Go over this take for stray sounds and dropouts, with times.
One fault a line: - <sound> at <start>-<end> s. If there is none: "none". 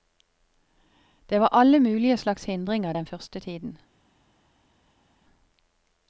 none